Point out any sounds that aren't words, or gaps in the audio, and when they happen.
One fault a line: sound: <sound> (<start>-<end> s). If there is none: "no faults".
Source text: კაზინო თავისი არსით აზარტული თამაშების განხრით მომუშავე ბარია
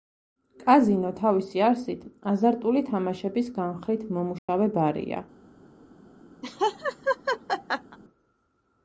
sound: dropout (4.4-4.5 s)
sound: laugh (6.4-8.0 s)